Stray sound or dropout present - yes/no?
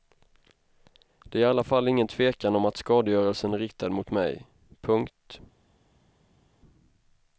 no